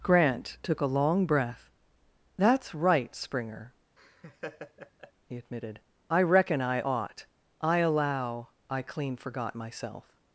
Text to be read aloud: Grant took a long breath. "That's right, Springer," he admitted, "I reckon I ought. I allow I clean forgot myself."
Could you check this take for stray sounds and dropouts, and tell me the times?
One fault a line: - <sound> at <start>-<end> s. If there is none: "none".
- laugh at 4.0-5.1 s